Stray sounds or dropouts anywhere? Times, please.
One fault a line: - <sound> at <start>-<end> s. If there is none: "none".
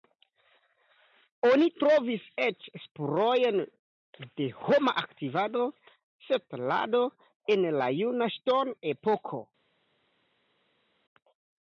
none